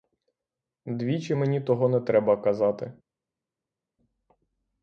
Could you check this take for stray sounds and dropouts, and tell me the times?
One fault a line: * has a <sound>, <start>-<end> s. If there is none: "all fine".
all fine